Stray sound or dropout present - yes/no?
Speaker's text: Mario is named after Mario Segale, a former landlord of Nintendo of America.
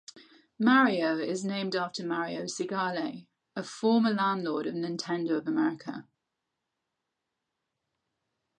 no